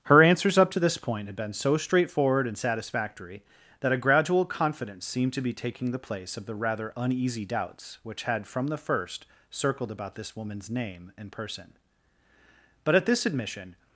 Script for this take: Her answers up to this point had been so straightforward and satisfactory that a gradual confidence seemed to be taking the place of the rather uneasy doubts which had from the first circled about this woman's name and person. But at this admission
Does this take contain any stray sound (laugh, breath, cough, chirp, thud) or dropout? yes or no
no